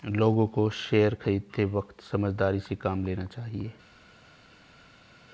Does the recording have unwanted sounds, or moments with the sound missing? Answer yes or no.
no